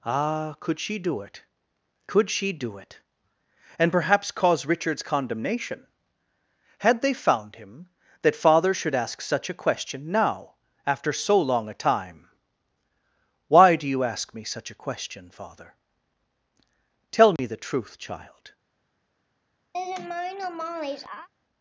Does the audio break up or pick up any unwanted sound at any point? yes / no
yes